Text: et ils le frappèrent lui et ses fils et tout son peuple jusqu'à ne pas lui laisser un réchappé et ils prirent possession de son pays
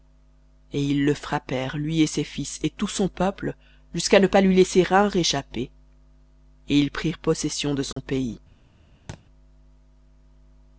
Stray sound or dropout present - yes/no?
yes